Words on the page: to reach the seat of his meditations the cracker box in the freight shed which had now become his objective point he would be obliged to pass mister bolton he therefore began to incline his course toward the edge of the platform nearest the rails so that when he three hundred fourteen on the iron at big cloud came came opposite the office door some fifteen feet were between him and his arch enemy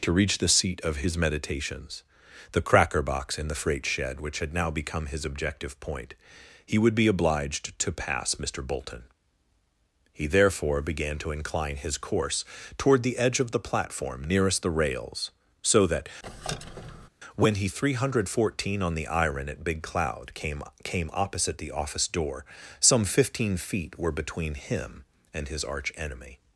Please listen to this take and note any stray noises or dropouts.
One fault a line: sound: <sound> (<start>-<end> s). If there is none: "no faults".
sound: squeak (16.2-17.1 s)